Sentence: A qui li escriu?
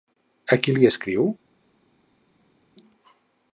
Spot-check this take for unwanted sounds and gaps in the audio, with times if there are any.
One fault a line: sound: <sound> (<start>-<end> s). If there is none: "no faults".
no faults